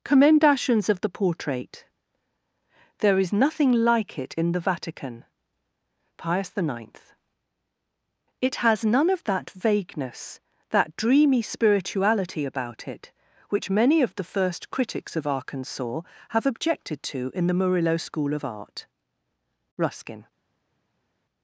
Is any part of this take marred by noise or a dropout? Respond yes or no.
no